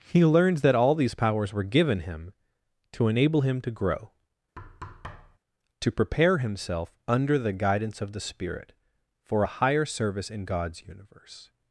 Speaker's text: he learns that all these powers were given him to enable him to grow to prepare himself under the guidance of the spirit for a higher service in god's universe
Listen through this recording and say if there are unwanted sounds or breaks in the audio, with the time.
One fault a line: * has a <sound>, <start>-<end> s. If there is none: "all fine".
* has a thud, 4.6-5.4 s